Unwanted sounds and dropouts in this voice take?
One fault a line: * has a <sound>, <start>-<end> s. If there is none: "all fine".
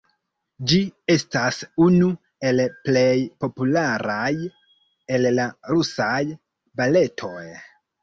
all fine